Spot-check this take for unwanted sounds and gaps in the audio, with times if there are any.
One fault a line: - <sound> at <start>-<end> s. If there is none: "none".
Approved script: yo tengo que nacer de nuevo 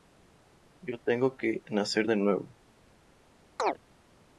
- chirp at 3.6-3.8 s